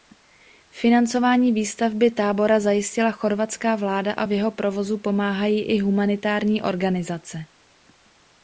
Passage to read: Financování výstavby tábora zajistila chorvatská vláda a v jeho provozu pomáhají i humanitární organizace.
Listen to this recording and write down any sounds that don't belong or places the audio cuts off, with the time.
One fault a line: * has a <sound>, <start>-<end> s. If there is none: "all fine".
all fine